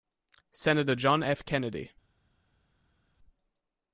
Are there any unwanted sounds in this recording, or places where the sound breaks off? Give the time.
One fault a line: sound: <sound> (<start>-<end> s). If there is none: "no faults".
no faults